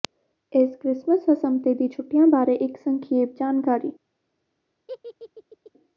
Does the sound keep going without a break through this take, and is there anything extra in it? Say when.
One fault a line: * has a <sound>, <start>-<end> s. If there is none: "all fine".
* has a laugh, 4.9-5.7 s